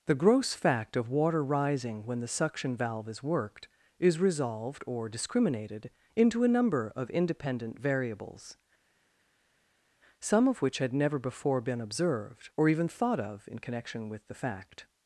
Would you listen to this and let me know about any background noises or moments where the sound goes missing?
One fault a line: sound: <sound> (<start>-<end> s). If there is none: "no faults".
no faults